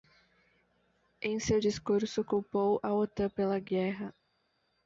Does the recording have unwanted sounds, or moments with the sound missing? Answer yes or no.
no